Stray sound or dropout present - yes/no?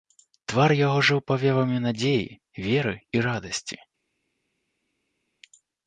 no